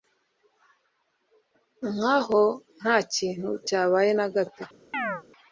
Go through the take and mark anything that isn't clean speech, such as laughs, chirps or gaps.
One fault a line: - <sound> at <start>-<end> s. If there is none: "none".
- chirp at 4.9-5.2 s